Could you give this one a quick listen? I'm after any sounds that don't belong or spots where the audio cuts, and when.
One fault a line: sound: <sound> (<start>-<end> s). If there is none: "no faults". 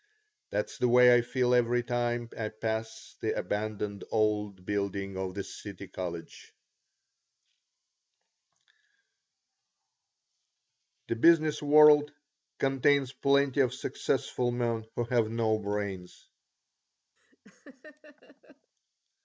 sound: laugh (17.2-18.7 s)